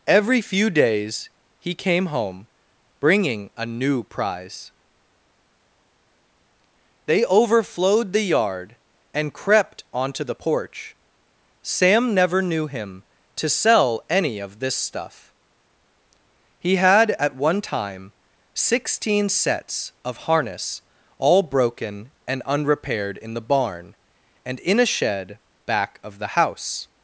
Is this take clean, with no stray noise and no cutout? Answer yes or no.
yes